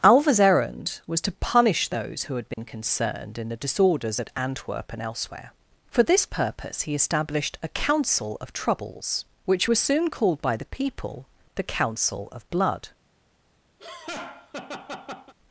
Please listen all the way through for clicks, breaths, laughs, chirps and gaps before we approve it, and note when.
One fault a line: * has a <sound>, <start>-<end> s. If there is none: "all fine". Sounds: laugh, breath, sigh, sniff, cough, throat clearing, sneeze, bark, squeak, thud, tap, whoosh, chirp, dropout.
* has a dropout, 2.5-2.6 s
* has a laugh, 13.8-15.3 s